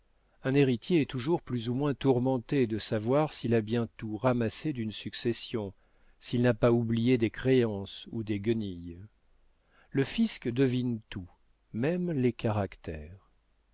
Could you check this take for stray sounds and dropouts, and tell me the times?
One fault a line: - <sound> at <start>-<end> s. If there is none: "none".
none